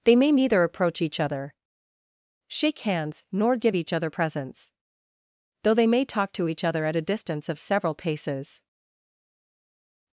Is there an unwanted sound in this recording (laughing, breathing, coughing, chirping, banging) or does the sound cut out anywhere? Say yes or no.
no